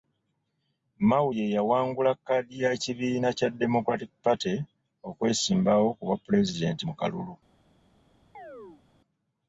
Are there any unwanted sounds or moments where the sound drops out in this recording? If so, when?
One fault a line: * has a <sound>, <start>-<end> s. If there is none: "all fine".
* has a chirp, 8.3-8.8 s